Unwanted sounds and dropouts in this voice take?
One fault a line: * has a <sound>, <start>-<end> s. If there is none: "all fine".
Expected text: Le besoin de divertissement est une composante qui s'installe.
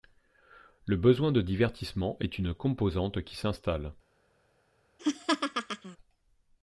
* has a laugh, 5.0-6.0 s